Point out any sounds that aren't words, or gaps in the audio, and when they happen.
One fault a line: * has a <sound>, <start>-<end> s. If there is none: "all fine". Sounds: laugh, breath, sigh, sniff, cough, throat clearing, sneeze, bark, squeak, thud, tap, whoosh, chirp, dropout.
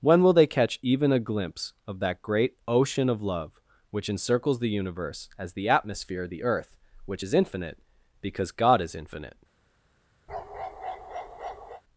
* has a bark, 10.3-11.8 s